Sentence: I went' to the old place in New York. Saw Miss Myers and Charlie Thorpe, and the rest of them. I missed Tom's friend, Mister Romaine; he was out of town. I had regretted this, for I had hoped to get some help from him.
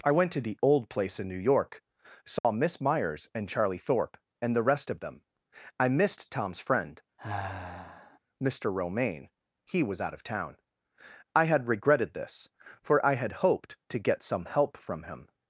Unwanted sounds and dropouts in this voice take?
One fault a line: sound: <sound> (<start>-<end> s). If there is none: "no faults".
sound: dropout (2.4-2.4 s)
sound: sigh (7.2-8.2 s)